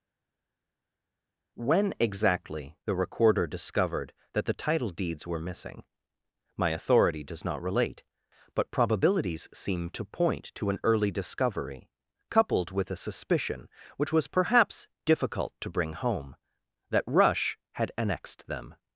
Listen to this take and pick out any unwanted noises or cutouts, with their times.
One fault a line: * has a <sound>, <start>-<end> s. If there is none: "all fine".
all fine